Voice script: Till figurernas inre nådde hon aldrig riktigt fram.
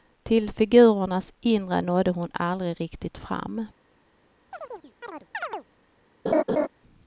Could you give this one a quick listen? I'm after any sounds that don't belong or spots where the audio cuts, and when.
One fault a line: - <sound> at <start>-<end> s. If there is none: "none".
- chirp at 4.5-5.7 s
- laugh at 6.3-6.7 s